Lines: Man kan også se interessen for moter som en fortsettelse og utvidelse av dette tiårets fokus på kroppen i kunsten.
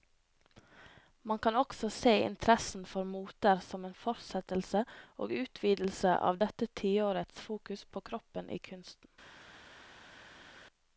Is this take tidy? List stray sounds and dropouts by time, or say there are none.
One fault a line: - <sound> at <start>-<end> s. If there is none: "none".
none